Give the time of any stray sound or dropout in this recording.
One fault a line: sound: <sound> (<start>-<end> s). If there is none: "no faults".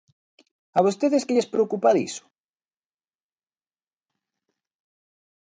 no faults